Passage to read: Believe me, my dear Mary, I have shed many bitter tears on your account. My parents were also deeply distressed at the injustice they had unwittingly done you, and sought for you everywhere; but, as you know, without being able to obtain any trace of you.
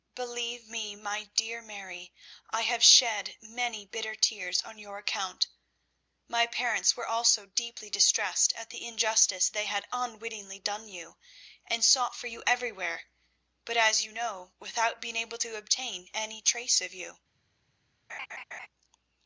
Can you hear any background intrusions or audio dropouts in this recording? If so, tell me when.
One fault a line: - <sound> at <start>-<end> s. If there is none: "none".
- laugh at 18.1-18.7 s